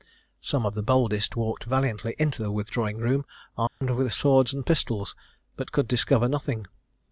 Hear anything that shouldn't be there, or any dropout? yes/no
yes